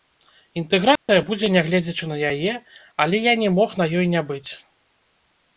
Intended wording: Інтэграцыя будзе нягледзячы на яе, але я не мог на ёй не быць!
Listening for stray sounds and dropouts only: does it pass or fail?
fail